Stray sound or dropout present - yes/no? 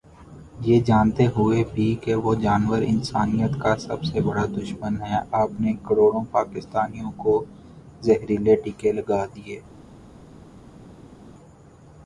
no